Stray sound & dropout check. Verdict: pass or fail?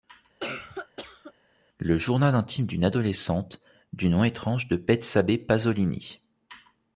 fail